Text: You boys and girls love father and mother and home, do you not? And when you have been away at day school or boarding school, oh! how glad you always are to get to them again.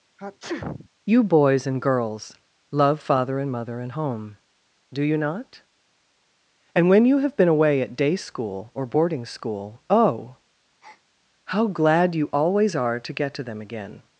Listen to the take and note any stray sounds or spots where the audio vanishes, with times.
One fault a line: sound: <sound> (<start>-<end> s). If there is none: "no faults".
sound: sneeze (0.2-0.9 s)
sound: breath (10.8-11.0 s)